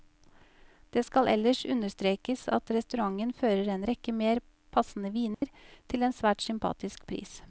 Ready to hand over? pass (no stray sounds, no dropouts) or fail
fail